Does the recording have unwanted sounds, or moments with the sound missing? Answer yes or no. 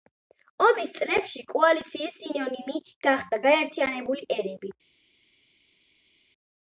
no